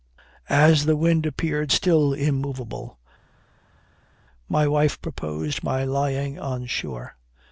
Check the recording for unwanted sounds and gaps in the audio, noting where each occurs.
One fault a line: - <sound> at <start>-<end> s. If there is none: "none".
none